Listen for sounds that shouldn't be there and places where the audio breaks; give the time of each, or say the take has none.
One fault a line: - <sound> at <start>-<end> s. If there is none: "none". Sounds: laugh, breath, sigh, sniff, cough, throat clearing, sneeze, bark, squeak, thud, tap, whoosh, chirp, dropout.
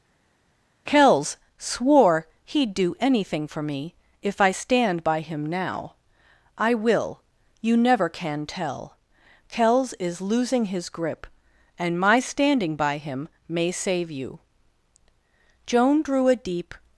none